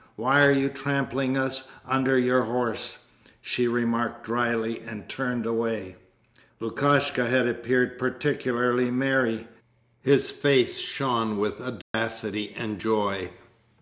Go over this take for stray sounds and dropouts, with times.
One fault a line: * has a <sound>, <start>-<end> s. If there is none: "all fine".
* has a dropout, 11.8-11.9 s